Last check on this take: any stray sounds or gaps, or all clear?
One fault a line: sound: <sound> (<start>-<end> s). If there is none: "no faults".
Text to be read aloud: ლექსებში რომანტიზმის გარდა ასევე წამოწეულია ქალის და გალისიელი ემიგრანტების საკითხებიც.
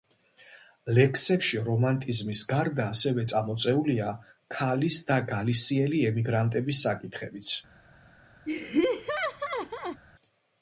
sound: laugh (8.5-10.0 s)